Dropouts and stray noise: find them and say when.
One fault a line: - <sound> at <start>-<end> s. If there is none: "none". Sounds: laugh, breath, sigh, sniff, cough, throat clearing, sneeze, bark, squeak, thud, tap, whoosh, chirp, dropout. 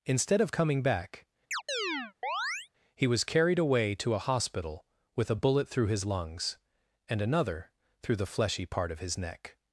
- chirp at 1.5-2.7 s